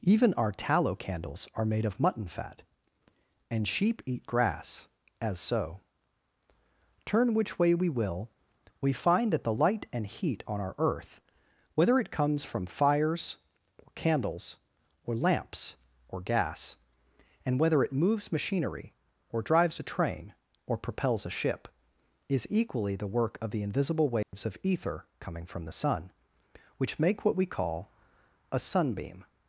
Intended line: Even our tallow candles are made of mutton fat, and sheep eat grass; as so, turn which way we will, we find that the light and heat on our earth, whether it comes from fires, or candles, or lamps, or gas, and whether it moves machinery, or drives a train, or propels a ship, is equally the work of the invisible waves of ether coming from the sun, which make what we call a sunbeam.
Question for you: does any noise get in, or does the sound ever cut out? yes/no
yes